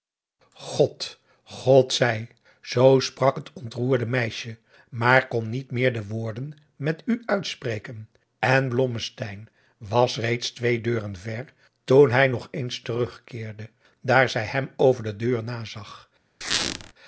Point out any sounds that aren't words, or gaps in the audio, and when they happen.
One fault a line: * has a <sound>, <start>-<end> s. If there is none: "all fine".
* has a squeak, 16.4-16.9 s